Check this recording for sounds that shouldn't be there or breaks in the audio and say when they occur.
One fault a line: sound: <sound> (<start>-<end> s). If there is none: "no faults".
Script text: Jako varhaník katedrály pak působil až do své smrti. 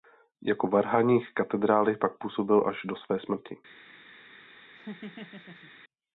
sound: laugh (4.7-5.7 s)